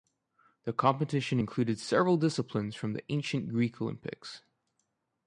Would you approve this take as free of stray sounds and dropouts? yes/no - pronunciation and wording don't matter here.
yes